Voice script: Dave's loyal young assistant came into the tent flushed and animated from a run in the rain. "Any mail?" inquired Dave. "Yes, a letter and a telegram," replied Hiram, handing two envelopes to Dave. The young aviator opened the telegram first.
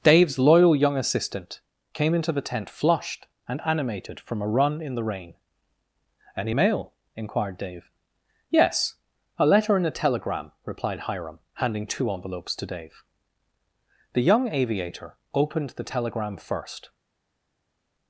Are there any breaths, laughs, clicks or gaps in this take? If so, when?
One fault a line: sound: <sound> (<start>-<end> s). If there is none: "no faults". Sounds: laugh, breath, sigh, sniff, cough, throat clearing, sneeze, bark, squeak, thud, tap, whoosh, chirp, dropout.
no faults